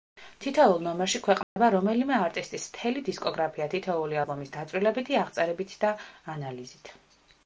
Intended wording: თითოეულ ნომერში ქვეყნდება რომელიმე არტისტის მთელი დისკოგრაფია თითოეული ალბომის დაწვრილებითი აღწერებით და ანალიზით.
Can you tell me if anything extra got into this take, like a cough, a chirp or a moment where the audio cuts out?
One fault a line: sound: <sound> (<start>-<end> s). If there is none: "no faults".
sound: dropout (1.4-1.6 s)